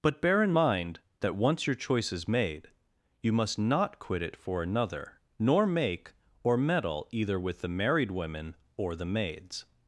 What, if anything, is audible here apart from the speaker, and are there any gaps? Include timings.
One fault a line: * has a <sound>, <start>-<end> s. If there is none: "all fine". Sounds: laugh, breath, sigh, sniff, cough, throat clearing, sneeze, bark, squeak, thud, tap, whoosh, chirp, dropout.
all fine